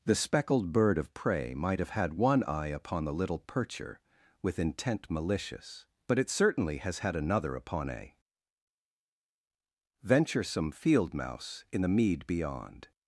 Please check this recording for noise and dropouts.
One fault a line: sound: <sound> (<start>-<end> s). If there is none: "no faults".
no faults